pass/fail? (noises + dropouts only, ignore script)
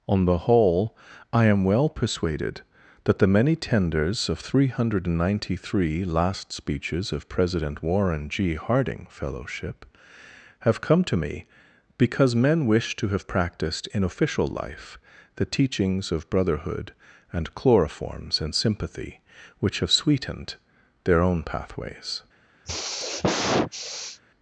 fail